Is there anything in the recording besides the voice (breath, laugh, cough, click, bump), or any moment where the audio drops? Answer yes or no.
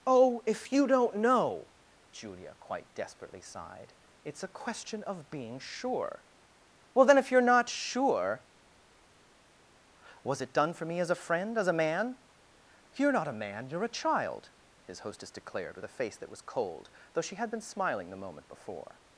no